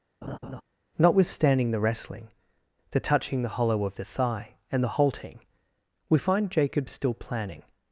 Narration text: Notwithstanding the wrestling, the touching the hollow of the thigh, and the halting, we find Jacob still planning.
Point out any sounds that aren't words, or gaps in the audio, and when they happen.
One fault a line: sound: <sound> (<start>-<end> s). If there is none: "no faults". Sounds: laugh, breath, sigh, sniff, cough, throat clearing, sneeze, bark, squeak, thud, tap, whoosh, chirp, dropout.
sound: laugh (0.2-0.6 s)